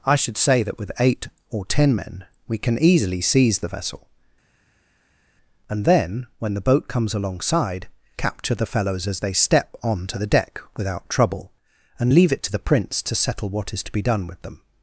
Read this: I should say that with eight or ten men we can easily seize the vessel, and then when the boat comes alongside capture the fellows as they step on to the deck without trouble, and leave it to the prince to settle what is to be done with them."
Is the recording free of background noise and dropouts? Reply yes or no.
yes